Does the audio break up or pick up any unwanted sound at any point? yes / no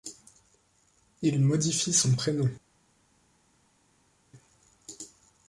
no